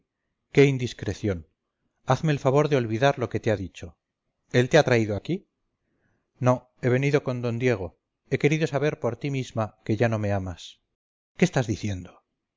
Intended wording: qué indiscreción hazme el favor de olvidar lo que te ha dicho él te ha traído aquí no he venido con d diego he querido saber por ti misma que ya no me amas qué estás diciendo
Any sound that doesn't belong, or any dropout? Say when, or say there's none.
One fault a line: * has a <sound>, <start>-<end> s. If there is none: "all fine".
all fine